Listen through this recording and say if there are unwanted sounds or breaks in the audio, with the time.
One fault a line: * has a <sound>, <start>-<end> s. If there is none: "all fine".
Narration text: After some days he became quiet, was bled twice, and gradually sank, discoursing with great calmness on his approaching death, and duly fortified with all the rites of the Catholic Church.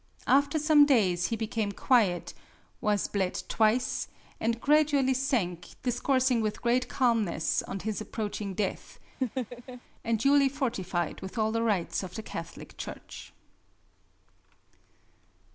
* has a laugh, 9.2-9.8 s